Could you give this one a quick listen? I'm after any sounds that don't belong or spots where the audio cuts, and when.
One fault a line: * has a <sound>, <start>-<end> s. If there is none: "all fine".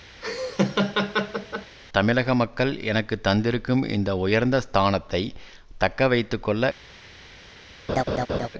* has a laugh, 0.2-1.8 s
* has a laugh, 7.9-8.5 s